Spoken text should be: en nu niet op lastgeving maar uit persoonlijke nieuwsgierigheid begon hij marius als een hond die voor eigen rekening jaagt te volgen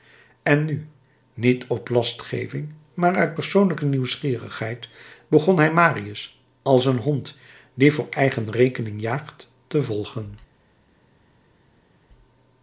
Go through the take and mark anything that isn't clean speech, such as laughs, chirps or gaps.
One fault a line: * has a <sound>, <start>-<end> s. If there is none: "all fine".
all fine